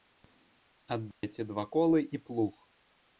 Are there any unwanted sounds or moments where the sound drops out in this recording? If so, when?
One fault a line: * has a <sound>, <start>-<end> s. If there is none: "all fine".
* has a dropout, 1.1-1.2 s